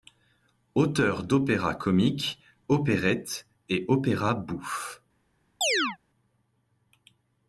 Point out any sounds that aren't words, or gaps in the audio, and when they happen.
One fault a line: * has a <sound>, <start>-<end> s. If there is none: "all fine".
* has a chirp, 5.6-6.0 s